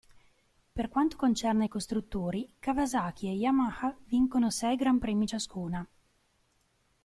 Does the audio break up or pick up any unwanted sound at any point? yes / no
no